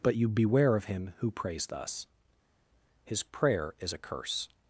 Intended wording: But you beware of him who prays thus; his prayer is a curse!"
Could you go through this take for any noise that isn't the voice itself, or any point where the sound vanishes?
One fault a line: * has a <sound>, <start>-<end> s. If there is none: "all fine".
all fine